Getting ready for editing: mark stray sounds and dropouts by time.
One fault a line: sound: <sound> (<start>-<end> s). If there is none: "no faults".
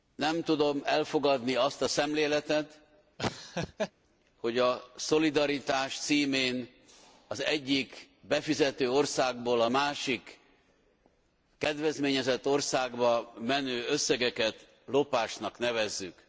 sound: laugh (3.2-3.9 s)